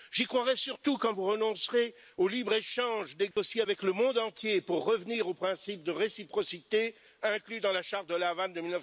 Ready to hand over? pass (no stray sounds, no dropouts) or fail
fail